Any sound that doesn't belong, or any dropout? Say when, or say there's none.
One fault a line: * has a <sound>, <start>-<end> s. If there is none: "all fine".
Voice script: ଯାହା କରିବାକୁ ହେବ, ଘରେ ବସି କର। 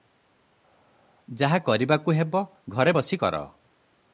all fine